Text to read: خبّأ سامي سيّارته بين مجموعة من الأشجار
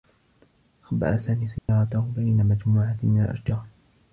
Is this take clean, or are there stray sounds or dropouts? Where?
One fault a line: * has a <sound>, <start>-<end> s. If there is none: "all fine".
* has a dropout, 1.6-1.7 s